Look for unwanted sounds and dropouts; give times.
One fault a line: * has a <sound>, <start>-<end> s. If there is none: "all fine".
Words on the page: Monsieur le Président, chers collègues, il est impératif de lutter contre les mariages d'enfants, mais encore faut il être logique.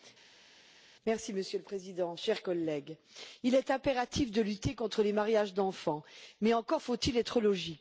all fine